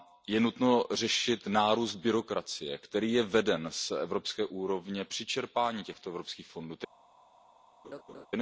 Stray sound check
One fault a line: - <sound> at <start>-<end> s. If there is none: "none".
- laugh at 7.8-8.3 s